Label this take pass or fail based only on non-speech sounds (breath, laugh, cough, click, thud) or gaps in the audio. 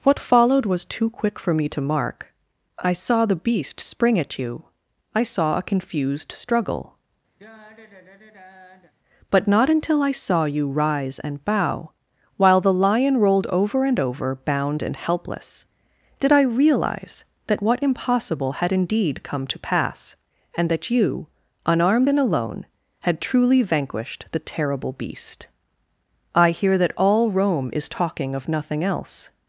fail